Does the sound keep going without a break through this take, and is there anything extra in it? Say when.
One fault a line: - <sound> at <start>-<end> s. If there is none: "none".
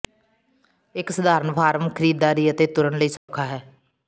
- dropout at 3.2-3.3 s